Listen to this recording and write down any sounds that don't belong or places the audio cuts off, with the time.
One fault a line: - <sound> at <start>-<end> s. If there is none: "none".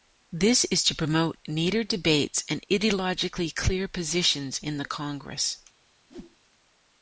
- whoosh at 6.1-6.4 s